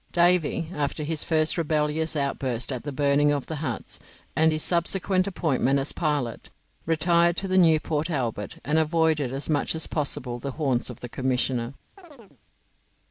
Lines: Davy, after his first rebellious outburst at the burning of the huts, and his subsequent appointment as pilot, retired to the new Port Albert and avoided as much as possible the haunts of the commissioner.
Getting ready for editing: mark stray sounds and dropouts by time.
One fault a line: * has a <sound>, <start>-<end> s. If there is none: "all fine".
* has a chirp, 12.0-12.4 s